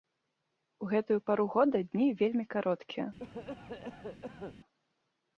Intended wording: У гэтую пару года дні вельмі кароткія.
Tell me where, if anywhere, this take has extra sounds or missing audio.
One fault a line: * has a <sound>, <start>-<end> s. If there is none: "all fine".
* has a cough, 3.2-4.6 s